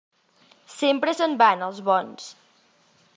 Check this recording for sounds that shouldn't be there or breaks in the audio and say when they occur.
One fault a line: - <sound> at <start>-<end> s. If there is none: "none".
none